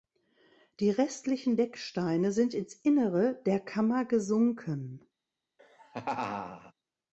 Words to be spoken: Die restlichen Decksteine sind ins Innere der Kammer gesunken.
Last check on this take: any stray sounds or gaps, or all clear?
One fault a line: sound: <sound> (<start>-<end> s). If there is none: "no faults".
sound: laugh (5.6-6.7 s)